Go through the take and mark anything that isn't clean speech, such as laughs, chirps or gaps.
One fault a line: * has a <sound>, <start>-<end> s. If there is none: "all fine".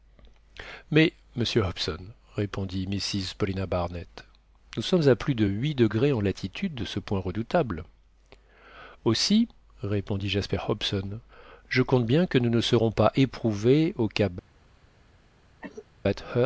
* has a cough, 15.6-15.9 s